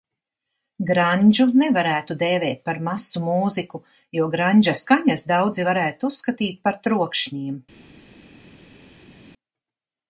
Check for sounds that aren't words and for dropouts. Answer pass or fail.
pass